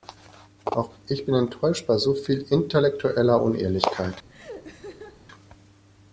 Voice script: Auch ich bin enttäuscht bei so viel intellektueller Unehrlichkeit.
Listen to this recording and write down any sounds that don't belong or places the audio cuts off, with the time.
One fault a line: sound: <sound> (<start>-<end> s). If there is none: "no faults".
sound: laugh (4.3-5.3 s)